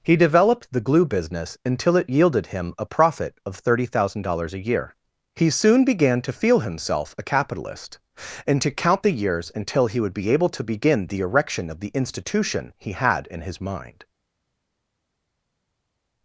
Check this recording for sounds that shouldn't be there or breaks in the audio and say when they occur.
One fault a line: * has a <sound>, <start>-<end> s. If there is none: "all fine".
all fine